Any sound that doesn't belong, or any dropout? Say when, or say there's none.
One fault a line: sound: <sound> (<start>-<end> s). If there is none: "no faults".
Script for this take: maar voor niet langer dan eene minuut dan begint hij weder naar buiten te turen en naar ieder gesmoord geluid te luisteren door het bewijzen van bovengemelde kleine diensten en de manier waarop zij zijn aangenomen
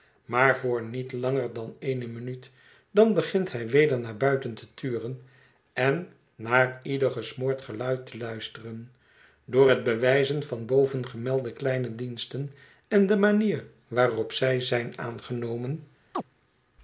sound: chirp (16.1-16.2 s)